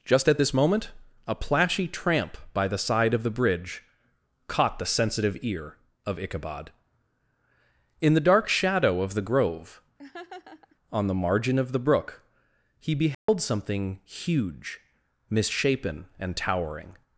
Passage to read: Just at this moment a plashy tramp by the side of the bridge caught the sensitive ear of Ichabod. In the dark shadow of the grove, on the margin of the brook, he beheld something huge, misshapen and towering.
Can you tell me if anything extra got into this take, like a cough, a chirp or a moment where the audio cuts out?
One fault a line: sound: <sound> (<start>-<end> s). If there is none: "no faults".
sound: laugh (10.0-10.8 s)
sound: dropout (13.1-13.3 s)